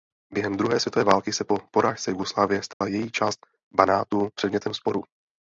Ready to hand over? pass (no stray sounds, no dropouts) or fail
fail